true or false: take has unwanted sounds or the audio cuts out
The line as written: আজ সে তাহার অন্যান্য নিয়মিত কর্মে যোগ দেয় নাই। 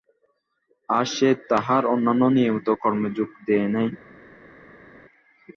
false